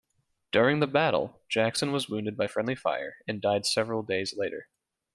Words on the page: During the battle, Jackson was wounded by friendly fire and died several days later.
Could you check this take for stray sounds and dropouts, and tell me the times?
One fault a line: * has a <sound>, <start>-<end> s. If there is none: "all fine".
all fine